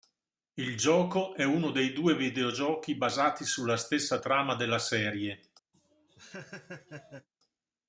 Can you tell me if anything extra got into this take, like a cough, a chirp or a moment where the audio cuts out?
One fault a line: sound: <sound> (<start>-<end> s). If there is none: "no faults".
sound: laugh (5.7-7.3 s)